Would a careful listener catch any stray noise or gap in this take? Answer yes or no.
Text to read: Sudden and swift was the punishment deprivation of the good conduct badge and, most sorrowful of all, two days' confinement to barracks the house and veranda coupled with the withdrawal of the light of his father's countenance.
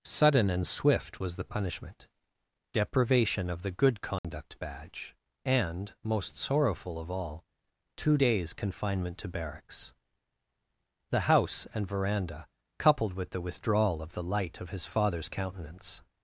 yes